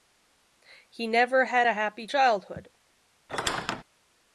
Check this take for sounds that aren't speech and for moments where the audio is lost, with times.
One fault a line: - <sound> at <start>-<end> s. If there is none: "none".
- squeak at 3.3-3.8 s